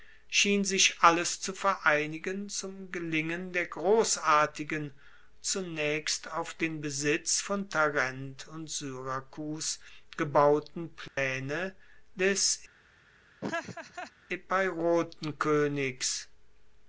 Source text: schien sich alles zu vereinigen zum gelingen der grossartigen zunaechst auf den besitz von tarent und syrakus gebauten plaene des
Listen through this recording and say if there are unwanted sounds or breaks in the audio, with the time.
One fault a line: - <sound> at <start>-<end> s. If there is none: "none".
- dropout at 11.1-11.2 s
- laugh at 13.4-14.1 s